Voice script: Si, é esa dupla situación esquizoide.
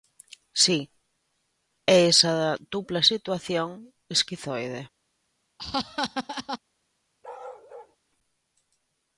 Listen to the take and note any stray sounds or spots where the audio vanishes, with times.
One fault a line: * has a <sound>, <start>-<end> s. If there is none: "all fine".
* has a laugh, 5.6-6.6 s
* has a bark, 7.2-8.0 s